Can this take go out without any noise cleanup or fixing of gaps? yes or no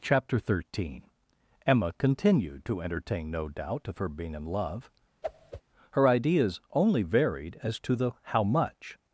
no